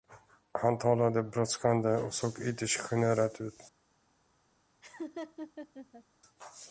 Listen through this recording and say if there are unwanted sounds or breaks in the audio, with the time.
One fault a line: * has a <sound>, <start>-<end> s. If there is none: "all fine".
* has a laugh, 4.8-6.0 s